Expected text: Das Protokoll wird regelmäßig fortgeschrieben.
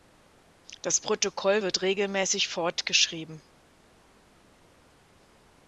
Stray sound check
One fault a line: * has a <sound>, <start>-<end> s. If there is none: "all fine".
all fine